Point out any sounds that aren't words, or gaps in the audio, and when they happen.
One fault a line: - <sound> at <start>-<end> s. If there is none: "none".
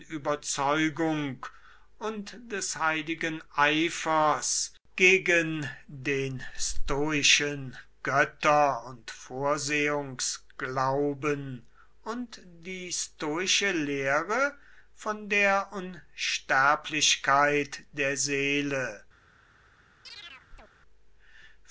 - chirp at 20.0-20.7 s